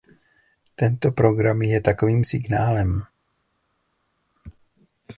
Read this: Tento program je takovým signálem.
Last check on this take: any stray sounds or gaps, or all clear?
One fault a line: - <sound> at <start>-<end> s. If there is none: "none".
none